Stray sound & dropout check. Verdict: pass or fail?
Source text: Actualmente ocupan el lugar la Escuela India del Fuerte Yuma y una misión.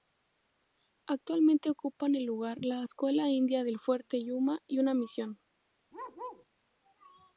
fail